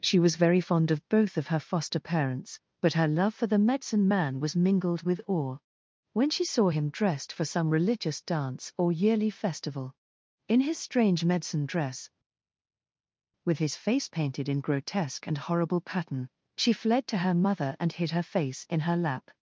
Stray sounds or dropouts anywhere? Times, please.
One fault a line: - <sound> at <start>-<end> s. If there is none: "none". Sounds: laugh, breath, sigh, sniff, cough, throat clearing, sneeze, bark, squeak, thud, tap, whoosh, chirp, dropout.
none